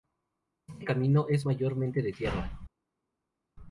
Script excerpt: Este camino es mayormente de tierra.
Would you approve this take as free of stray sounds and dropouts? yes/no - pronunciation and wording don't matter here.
yes